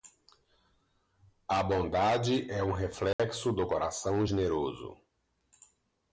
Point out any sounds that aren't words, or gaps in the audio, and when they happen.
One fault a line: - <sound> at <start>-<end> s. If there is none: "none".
- dropout at 3.1-3.2 s